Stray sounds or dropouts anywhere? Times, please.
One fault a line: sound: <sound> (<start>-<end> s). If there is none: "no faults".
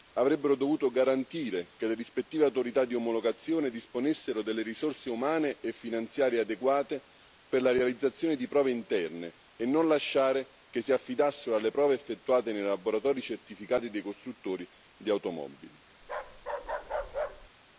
sound: bark (16.0-17.5 s)